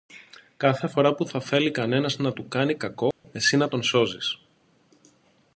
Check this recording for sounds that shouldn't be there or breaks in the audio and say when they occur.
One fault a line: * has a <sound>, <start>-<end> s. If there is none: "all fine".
* has a dropout, 3.1-3.2 s